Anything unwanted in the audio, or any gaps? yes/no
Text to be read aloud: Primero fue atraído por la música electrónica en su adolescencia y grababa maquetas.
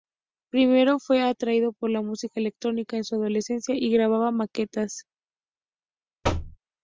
yes